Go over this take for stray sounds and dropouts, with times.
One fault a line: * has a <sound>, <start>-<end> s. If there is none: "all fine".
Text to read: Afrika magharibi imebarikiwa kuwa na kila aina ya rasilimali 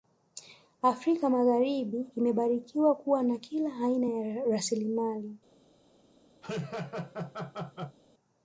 * has a laugh, 6.4-8.0 s